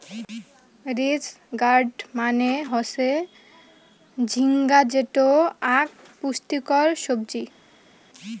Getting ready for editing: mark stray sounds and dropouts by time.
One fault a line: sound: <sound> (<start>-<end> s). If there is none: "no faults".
no faults